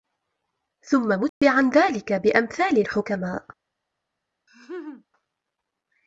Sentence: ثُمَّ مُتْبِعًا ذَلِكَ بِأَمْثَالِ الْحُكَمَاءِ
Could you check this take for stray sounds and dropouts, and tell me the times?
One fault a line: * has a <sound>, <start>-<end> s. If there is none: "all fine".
* has a dropout, 1.3-1.4 s
* has a laugh, 4.5-5.1 s